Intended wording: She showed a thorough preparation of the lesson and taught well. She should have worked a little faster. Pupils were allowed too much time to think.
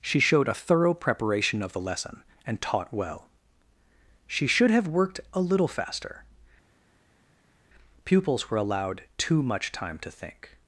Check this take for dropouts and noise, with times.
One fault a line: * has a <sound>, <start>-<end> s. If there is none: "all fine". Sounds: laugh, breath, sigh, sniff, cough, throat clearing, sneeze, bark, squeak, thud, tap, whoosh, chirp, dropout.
all fine